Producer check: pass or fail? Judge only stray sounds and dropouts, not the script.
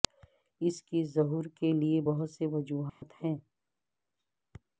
fail